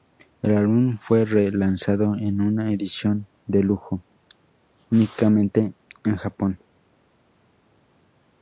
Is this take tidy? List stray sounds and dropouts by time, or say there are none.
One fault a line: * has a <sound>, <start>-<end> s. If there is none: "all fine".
all fine